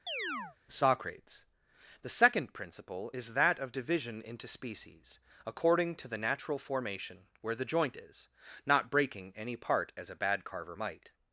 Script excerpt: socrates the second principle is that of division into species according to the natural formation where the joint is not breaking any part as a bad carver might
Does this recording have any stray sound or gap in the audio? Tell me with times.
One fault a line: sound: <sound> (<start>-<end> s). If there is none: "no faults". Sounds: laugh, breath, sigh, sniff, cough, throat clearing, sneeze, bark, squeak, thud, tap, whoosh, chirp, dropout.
sound: chirp (0.1-0.6 s)